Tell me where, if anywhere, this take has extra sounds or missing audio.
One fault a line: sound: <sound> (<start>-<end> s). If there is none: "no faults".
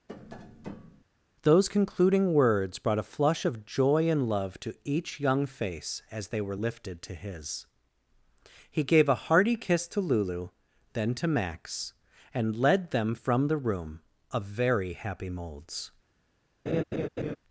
sound: tap (0.1-1.0 s)
sound: laugh (16.7-17.4 s)